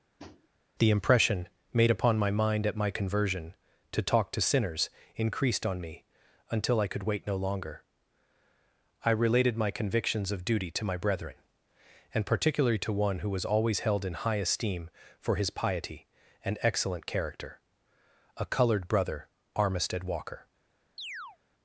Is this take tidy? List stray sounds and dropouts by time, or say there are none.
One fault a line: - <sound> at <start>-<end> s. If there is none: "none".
- tap at 0.2-0.5 s
- chirp at 21.0-21.4 s